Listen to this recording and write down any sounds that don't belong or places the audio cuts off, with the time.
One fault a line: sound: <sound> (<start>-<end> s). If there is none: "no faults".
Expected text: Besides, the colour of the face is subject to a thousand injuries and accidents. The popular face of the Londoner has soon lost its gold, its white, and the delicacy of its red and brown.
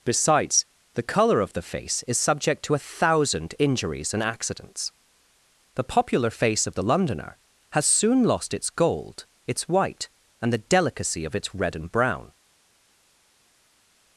no faults